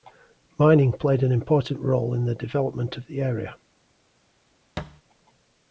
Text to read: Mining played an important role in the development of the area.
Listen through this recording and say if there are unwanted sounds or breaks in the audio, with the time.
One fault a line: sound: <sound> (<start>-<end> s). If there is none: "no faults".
sound: thud (4.8-5.0 s)